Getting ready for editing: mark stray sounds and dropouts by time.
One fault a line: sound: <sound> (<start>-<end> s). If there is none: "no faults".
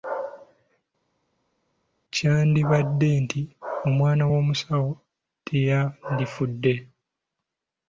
no faults